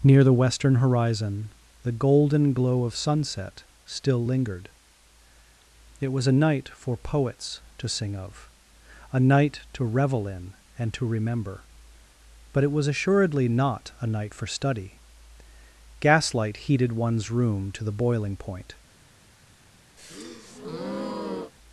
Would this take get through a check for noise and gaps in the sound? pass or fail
fail